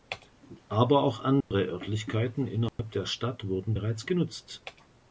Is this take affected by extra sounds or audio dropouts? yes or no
yes